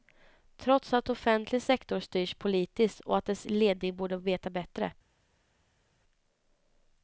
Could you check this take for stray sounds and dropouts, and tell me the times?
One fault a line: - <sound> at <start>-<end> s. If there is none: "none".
none